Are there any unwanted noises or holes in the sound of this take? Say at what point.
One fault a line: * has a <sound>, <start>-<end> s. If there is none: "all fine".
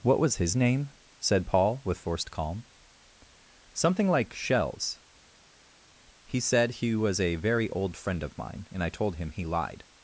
all fine